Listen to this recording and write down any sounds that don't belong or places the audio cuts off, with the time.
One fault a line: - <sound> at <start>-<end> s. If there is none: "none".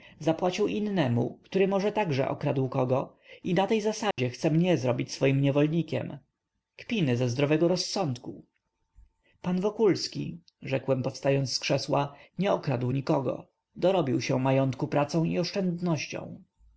- dropout at 4.1-4.2 s